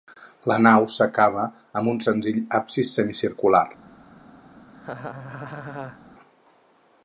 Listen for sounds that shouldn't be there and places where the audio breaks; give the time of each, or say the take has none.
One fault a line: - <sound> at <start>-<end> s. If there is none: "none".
- laugh at 4.7-6.0 s